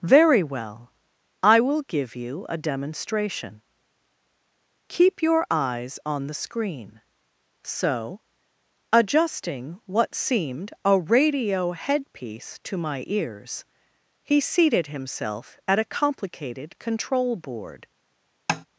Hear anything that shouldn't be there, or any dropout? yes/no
yes